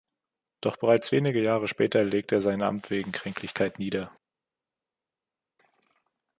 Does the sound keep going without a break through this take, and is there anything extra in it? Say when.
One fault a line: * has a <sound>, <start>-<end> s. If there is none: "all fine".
all fine